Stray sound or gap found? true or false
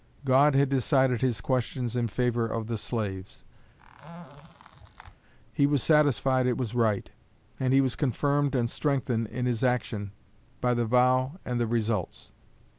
true